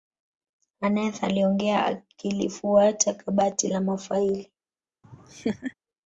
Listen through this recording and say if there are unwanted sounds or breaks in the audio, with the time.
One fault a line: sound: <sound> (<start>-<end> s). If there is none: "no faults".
sound: laugh (5.0-5.7 s)